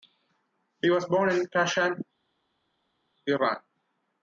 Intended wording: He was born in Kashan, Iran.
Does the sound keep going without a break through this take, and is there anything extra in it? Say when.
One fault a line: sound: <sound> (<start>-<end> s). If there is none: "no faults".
no faults